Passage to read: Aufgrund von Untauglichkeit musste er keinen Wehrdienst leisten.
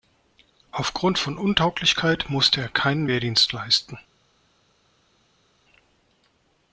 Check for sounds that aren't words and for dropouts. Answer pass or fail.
pass